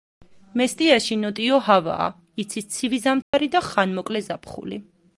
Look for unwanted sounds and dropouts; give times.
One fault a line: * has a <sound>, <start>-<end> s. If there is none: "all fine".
* has a dropout, 3.2-3.3 s